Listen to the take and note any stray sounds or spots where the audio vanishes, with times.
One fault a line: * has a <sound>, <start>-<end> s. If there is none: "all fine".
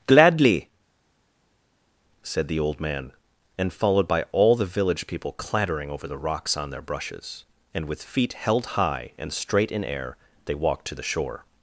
all fine